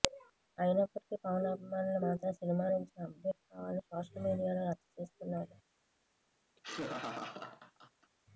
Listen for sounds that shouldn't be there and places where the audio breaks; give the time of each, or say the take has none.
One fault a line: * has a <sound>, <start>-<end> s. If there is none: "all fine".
* has a laugh, 6.6-8.1 s